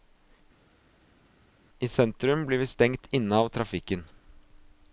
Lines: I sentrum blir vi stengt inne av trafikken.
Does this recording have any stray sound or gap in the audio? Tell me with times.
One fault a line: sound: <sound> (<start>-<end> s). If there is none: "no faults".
no faults